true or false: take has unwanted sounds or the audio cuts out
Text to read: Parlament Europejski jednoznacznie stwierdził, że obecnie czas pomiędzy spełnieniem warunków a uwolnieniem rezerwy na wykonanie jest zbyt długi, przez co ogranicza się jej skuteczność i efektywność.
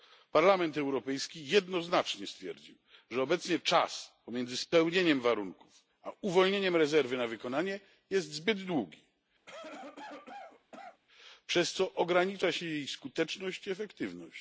true